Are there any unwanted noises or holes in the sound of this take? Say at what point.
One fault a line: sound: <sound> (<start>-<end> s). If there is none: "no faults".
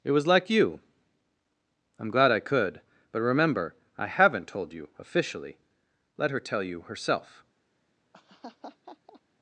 sound: laugh (8.1-9.2 s)